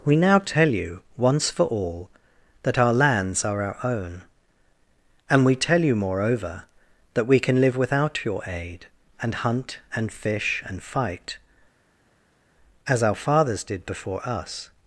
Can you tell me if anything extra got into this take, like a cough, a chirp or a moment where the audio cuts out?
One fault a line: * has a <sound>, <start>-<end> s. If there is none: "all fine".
all fine